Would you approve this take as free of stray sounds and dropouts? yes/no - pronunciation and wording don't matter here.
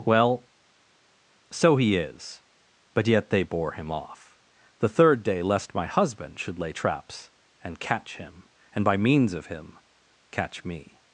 yes